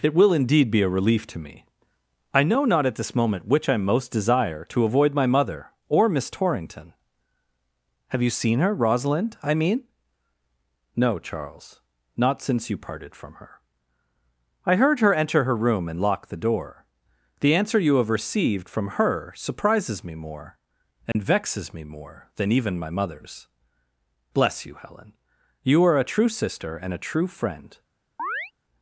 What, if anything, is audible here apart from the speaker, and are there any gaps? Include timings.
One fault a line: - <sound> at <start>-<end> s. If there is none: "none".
- dropout at 21.1-21.1 s
- chirp at 28.2-28.5 s